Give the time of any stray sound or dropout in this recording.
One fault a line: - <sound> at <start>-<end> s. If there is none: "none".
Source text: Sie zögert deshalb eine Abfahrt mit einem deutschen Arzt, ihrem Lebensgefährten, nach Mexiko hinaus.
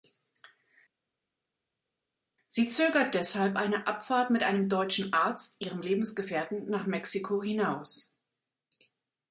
none